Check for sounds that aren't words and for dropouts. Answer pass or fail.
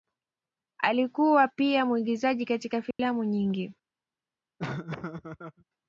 fail